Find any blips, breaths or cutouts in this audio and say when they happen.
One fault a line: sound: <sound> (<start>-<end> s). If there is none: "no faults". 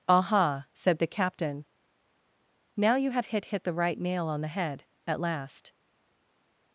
no faults